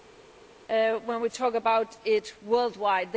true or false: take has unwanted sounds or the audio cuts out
false